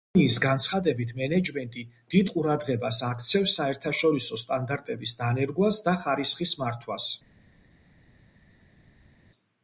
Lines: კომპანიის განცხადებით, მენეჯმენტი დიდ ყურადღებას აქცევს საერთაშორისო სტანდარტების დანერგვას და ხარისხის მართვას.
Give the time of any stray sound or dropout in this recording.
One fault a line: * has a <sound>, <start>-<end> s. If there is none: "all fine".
all fine